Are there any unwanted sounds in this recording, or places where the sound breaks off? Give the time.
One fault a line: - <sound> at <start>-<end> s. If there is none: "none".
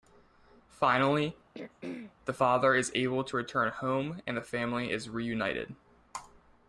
- throat clearing at 1.5-2.1 s